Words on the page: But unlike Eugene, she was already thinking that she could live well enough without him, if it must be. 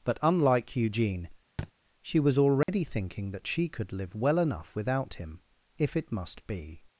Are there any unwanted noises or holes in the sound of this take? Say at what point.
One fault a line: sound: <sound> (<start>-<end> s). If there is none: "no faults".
sound: thud (1.6-1.7 s)
sound: dropout (2.6-2.7 s)